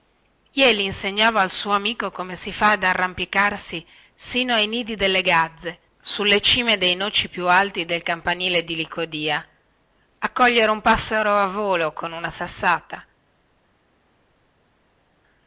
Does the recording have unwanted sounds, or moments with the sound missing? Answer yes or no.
no